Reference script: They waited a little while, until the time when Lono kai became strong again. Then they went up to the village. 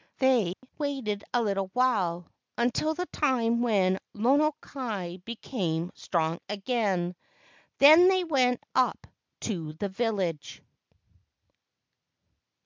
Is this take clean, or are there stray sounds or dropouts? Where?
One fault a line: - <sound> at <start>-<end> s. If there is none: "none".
- dropout at 0.5-0.6 s